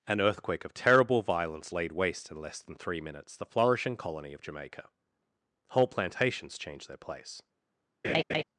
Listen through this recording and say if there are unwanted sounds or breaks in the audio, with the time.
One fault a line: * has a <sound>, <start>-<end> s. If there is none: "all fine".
* has a laugh, 8.0-8.4 s